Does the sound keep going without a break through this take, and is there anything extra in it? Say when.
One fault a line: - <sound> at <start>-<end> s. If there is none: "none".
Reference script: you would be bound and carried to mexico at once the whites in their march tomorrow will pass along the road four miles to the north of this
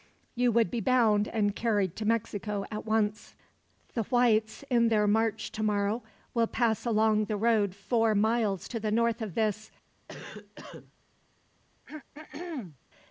- cough at 10.1-10.9 s
- throat clearing at 11.9-12.8 s